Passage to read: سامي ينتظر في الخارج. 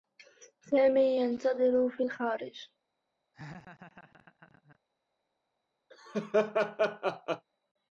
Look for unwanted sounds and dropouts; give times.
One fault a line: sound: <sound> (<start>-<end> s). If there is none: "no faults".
sound: laugh (3.3-4.8 s)
sound: laugh (5.9-7.5 s)